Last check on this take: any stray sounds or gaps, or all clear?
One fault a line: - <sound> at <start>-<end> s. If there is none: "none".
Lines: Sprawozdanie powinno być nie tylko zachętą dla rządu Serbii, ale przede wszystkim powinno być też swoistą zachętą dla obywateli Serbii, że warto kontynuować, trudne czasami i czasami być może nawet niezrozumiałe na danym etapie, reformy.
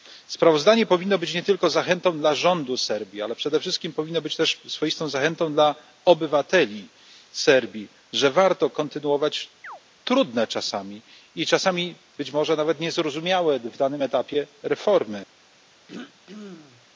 - chirp at 9.6-9.8 s
- throat clearing at 15.9-16.9 s